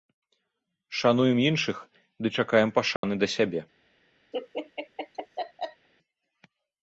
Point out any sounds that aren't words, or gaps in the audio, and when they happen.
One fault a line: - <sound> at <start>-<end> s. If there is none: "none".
- dropout at 3.0-3.0 s
- laugh at 4.3-5.9 s